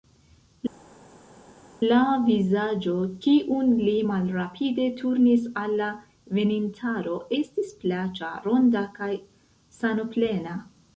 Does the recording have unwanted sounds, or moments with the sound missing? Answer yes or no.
no